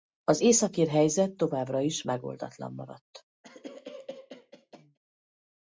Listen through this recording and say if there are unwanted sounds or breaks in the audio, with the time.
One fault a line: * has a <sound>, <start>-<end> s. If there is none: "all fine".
* has a cough, 3.4-5.0 s